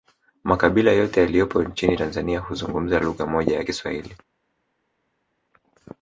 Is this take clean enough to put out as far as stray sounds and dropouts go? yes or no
yes